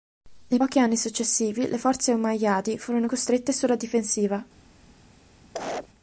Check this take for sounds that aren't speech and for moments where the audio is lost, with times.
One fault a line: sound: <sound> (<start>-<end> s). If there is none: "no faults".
sound: cough (5.5-5.9 s)